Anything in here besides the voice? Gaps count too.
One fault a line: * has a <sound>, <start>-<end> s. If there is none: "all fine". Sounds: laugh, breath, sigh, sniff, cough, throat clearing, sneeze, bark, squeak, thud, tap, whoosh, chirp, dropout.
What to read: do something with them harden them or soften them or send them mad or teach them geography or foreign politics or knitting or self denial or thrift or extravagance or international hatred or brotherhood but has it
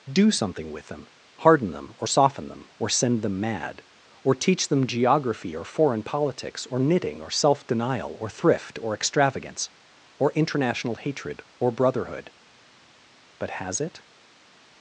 all fine